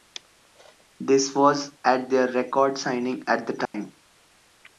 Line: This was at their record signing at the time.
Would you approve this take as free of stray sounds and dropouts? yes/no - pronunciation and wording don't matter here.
no